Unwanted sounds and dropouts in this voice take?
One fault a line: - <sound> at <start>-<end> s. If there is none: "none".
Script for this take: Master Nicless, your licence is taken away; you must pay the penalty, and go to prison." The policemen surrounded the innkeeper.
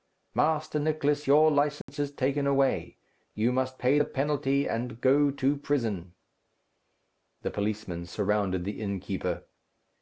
- dropout at 1.8-1.9 s